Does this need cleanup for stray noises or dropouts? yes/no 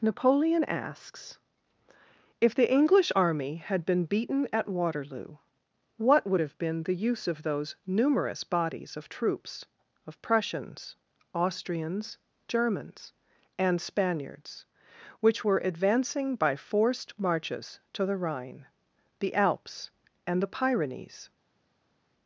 no